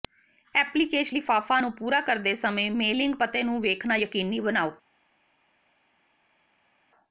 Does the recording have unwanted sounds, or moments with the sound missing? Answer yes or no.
no